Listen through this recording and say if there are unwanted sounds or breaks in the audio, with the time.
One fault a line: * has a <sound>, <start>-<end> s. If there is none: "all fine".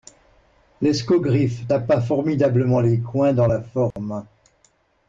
* has a dropout, 3.9-4.0 s